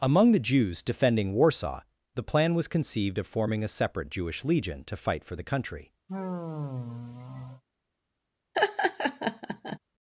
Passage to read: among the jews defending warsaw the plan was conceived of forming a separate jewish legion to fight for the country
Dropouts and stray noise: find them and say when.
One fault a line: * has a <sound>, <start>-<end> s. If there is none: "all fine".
* has a sigh, 6.1-7.6 s
* has a laugh, 8.5-9.8 s